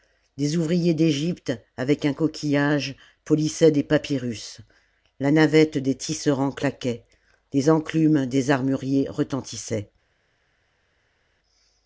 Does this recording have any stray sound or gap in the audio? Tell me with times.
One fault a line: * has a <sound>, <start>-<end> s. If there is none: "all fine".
all fine